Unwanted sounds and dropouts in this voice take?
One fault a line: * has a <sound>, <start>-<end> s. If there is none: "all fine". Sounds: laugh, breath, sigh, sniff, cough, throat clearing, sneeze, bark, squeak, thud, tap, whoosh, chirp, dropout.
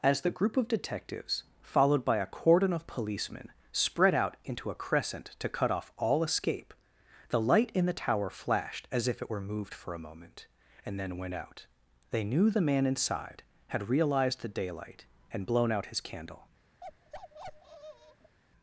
* has a bark, 16.8-18.4 s